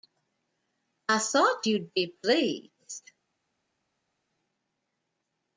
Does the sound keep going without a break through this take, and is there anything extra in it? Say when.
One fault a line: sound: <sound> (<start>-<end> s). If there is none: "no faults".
no faults